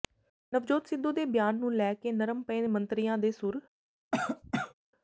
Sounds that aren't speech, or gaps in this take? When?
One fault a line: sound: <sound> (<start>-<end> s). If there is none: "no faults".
sound: cough (4.1-4.7 s)